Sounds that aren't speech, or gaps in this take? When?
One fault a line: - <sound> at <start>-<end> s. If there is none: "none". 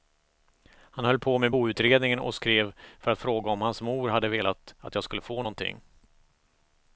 none